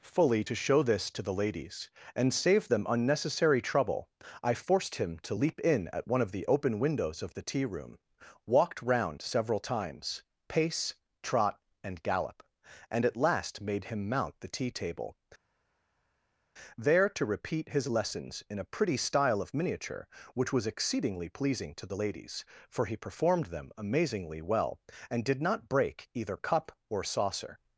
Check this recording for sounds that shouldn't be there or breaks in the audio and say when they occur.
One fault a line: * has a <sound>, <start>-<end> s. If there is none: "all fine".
all fine